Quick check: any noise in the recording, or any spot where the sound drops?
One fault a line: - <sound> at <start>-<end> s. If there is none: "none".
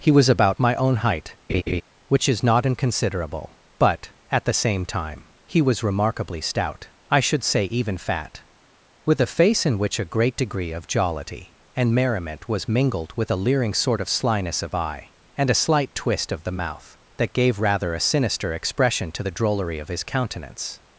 - laugh at 1.5-1.8 s